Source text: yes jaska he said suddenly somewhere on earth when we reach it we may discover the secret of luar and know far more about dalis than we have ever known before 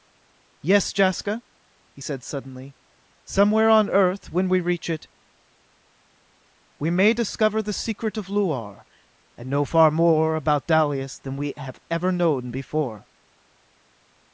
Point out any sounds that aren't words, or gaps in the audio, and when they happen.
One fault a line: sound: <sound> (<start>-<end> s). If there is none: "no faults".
no faults